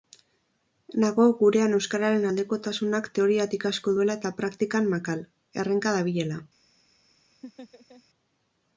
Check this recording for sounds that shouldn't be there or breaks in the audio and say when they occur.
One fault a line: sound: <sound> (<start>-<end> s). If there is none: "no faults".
sound: laugh (7.4-8.0 s)